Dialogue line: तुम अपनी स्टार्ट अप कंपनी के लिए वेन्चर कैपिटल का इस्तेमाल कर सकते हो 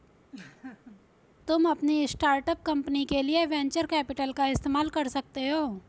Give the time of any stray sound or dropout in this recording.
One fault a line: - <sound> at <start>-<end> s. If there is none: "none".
- laugh at 0.3-1.0 s